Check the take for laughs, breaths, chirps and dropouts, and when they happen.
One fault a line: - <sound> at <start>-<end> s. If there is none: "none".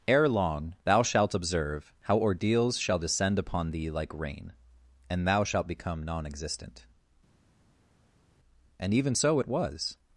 none